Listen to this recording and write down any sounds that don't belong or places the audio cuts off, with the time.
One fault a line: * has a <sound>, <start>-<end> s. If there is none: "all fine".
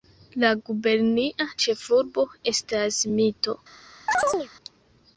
* has a chirp, 4.1-4.5 s